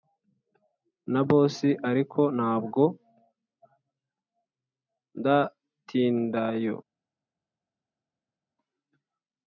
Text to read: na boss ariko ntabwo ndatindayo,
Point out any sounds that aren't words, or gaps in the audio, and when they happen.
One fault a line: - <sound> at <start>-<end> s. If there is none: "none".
none